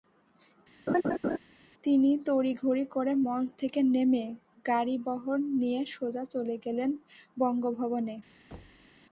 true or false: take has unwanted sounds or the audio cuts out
true